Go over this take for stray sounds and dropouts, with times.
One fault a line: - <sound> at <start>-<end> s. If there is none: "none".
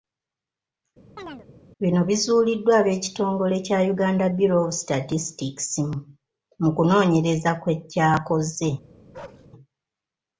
- chirp at 1.2-1.5 s
- bark at 9.1-9.5 s